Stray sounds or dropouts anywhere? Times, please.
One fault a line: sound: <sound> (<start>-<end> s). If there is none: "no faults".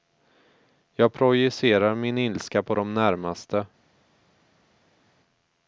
no faults